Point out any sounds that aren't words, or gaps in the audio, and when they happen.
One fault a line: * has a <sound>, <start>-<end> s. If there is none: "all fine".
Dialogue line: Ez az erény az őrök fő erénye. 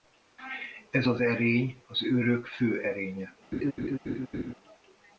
* has a laugh, 3.5-4.5 s